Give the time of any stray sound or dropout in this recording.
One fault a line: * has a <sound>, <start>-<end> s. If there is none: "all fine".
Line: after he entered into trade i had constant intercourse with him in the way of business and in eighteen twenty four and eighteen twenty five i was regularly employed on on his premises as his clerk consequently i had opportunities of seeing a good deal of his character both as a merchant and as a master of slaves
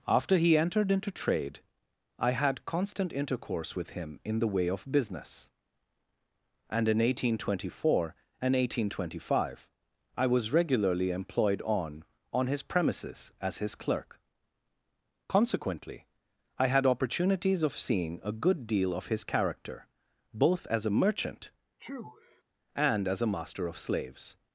* has a sneeze, 21.8-22.4 s